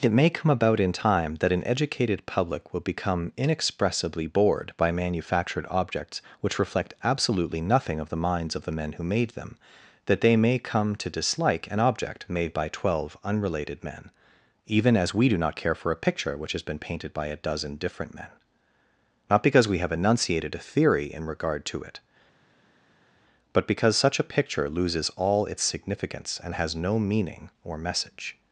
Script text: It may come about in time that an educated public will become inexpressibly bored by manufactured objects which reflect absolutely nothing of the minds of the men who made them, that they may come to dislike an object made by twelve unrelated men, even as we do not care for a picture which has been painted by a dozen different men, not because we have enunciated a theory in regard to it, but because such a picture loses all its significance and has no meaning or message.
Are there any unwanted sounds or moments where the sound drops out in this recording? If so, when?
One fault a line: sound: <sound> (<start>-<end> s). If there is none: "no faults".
no faults